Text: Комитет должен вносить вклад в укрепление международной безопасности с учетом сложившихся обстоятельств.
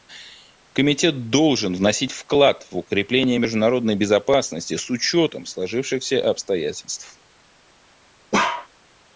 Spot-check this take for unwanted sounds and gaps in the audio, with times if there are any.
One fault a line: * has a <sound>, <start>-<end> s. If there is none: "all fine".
* has a bark, 8.3-8.7 s